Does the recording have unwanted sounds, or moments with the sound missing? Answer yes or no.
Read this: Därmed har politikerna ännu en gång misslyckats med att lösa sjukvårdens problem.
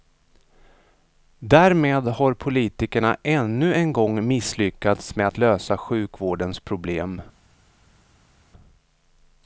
no